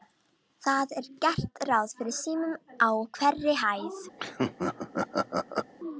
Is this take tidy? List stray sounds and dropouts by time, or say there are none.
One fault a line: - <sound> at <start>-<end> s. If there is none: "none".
- laugh at 4.2-5.7 s